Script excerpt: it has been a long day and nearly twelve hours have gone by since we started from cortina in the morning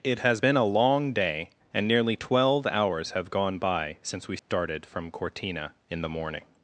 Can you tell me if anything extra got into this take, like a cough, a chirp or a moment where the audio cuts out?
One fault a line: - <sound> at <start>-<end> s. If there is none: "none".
- dropout at 4.4-4.5 s